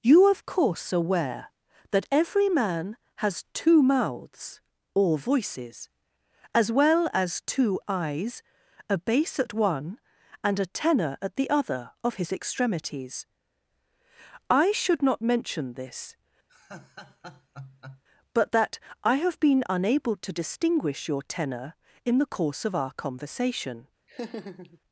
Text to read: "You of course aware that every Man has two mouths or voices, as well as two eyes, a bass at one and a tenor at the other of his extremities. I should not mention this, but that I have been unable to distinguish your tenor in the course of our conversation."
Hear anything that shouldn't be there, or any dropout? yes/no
yes